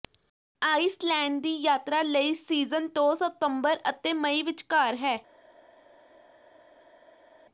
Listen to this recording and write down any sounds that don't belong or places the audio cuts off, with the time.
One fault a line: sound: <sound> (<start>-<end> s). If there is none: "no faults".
no faults